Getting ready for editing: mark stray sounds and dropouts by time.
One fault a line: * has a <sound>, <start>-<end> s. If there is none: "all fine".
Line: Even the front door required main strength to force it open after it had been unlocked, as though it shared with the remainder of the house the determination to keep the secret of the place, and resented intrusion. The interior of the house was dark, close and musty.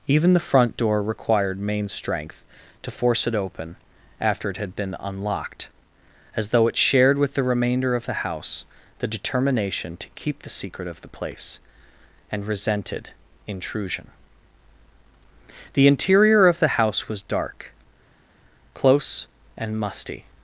all fine